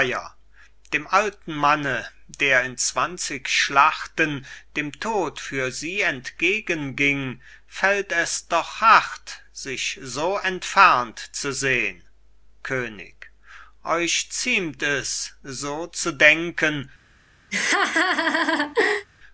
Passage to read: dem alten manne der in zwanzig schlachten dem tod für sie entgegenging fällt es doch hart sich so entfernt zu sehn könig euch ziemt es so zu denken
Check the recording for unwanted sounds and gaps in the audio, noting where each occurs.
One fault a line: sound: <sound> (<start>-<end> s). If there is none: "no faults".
sound: laugh (17.5-19.1 s)